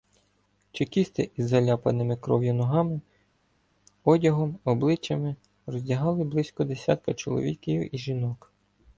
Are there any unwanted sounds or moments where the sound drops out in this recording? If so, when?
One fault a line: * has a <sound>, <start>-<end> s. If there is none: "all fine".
all fine